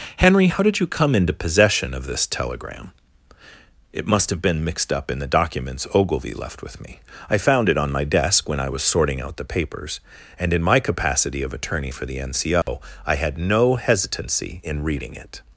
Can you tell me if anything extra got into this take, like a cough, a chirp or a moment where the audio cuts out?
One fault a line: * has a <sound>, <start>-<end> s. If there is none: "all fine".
* has a dropout, 12.6-12.7 s